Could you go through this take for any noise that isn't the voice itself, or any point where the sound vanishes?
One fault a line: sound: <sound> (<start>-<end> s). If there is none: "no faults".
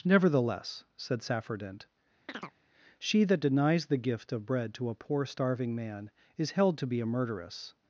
sound: chirp (2.3-2.5 s)